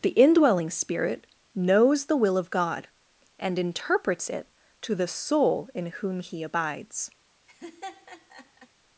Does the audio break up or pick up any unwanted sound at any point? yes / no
yes